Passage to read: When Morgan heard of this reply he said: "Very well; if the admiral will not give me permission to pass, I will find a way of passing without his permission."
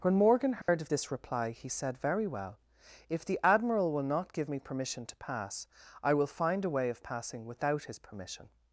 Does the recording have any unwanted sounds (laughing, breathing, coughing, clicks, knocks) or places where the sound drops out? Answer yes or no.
yes